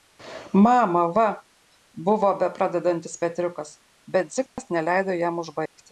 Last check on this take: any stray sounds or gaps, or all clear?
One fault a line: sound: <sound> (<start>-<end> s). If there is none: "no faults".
sound: dropout (4.5-4.6 s)
sound: dropout (5.7-5.8 s)